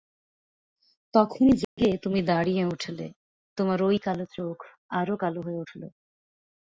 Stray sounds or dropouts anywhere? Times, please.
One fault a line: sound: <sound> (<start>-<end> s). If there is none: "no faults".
sound: dropout (1.6-1.8 s)